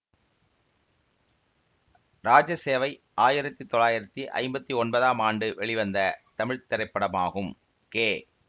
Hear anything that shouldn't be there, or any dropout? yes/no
no